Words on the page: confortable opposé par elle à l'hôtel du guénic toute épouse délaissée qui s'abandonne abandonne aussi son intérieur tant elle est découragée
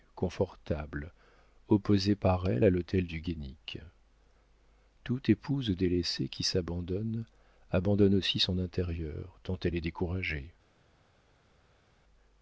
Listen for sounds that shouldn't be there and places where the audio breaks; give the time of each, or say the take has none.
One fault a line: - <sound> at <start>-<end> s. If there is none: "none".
none